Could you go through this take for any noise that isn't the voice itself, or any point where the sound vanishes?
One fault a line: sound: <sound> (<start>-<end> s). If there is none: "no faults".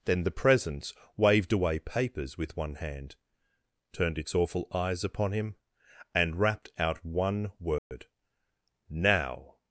sound: dropout (7.8-7.9 s)